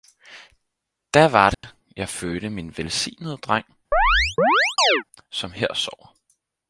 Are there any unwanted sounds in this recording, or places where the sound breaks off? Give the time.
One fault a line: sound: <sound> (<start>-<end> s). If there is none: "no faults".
sound: dropout (1.5-1.6 s)
sound: chirp (3.9-5.0 s)